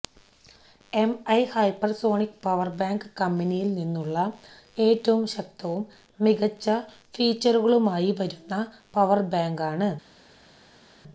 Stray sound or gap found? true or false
false